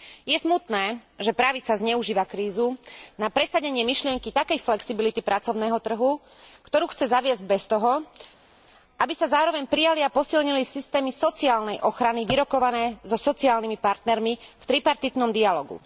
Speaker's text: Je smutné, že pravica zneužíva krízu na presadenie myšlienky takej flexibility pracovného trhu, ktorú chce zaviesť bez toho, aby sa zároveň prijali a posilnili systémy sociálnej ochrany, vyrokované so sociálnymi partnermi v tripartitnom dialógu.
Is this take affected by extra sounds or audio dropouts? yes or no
no